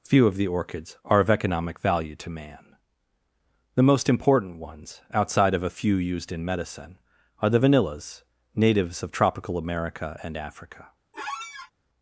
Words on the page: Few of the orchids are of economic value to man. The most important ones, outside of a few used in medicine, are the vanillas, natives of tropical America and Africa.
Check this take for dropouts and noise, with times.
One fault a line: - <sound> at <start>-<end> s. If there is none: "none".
- squeak at 11.1-11.7 s